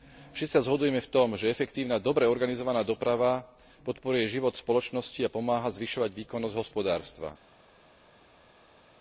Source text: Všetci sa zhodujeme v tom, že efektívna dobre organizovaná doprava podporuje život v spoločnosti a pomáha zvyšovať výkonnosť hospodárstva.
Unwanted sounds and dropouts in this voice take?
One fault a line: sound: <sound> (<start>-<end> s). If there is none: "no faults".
no faults